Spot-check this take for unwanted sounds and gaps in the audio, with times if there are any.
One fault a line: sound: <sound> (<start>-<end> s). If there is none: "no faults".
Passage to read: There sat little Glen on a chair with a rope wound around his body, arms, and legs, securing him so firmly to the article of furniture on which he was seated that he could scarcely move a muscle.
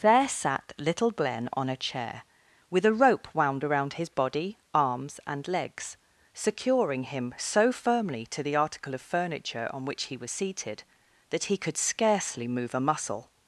no faults